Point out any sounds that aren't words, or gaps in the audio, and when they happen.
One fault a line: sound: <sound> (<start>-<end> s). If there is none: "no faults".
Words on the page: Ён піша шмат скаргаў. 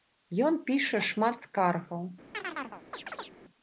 sound: chirp (2.3-3.3 s)